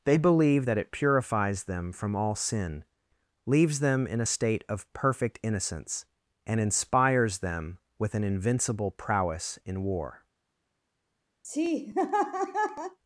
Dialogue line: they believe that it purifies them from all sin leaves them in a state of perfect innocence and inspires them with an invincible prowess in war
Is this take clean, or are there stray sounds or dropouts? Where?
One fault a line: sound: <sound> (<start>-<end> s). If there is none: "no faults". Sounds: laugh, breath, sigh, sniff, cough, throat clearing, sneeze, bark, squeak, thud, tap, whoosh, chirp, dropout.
sound: laugh (11.4-13.0 s)